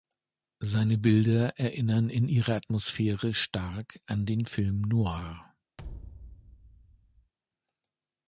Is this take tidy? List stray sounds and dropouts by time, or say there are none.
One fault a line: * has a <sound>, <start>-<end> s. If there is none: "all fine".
* has a thud, 5.8-7.3 s